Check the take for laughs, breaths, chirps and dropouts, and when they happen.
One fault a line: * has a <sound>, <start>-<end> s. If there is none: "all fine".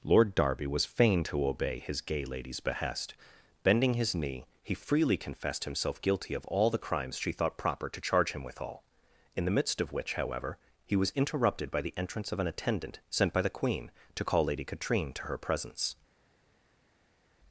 all fine